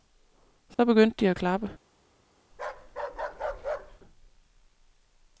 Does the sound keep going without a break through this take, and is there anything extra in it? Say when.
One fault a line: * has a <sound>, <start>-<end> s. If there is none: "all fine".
* has a dropout, 0.7-0.8 s
* has a bark, 2.5-4.0 s